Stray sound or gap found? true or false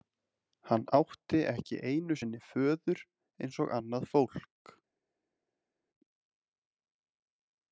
false